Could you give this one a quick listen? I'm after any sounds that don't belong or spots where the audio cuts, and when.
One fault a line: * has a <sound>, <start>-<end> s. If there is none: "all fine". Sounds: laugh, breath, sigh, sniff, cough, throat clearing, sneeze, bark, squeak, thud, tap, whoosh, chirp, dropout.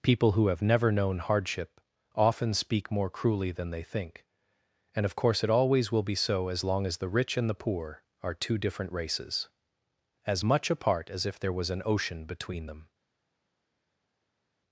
all fine